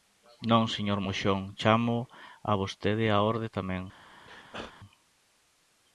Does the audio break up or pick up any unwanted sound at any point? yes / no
yes